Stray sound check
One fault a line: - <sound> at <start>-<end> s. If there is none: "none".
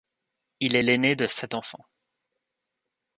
none